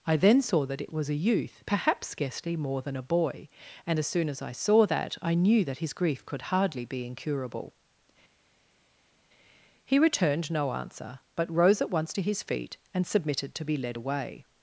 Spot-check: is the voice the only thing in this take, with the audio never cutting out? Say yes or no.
yes